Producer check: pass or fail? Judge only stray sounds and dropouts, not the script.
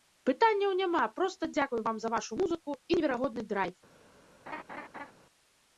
fail